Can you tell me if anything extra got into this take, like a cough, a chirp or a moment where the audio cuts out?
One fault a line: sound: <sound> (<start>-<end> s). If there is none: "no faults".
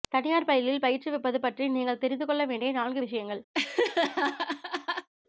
sound: laugh (3.5-5.1 s)